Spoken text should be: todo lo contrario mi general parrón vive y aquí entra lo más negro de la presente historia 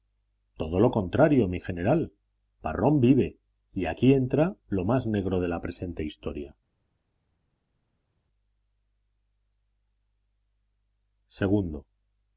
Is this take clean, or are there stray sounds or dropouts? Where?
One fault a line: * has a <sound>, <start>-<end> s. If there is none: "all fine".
all fine